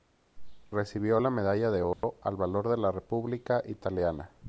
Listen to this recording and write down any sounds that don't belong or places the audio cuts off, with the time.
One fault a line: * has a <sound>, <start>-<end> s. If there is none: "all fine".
* has a dropout, 1.9-2.0 s